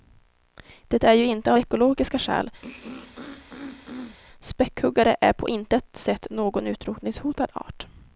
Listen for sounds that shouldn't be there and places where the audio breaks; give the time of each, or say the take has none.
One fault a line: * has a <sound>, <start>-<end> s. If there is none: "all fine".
* has a throat clearing, 2.6-4.2 s